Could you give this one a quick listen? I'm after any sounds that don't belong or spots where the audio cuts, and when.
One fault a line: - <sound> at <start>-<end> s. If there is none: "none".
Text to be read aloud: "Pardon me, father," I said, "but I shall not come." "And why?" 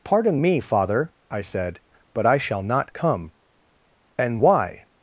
none